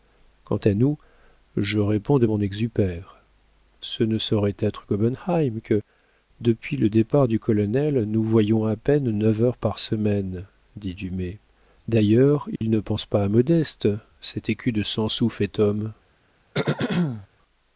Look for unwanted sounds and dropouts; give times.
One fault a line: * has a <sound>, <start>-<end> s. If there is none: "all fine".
* has a dropout, 12.6-12.6 s
* has a throat clearing, 16.5-17.3 s